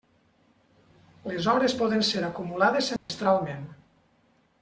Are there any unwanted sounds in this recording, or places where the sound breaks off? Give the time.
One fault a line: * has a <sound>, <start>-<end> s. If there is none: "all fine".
* has a dropout, 3.0-3.1 s